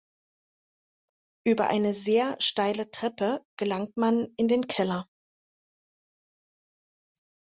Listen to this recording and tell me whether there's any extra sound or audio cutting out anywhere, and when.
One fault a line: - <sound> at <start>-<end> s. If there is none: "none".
none